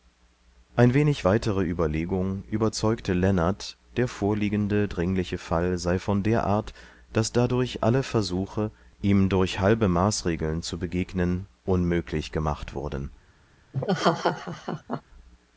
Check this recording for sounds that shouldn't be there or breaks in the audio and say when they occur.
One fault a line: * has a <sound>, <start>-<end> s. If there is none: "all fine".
* has a laugh, 13.7-15.0 s